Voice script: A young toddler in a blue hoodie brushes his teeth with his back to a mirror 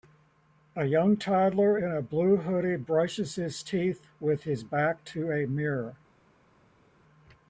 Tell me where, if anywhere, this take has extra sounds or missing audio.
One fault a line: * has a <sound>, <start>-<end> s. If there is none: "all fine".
all fine